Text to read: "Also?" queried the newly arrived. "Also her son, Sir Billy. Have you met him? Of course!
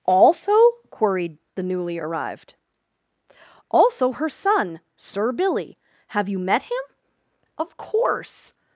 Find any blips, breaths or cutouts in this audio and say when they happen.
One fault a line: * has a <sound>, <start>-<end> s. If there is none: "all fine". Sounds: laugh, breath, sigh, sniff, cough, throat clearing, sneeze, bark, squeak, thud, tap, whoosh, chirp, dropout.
all fine